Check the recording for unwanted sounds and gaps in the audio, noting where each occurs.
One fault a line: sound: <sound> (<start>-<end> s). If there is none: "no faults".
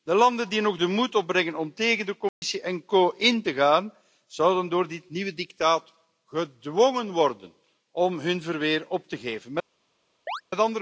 sound: dropout (2.3-2.4 s)
sound: chirp (10.3-10.4 s)